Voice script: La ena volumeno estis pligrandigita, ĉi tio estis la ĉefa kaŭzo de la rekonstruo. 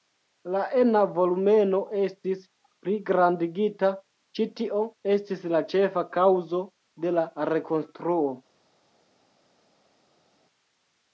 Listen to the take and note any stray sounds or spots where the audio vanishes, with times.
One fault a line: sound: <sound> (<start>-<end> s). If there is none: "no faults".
no faults